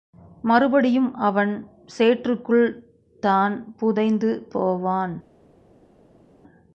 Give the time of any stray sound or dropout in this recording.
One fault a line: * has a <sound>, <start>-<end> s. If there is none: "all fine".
all fine